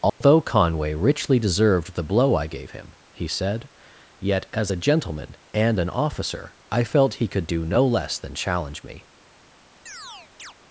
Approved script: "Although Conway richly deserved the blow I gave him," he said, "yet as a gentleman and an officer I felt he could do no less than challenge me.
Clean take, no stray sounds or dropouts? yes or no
no